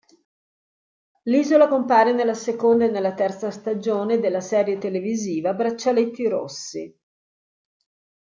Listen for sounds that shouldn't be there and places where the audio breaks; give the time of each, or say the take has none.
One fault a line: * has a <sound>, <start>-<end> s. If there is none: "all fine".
all fine